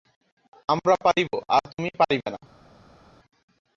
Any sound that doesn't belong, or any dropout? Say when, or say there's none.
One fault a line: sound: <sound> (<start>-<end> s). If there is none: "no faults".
no faults